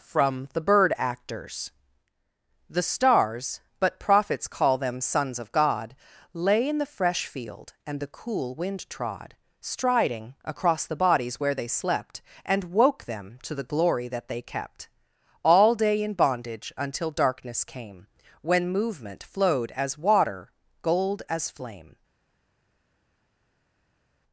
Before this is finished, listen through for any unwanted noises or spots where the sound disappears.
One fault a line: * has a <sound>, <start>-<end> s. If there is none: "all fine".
all fine